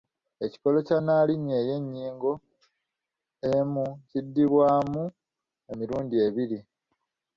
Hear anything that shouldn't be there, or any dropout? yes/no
no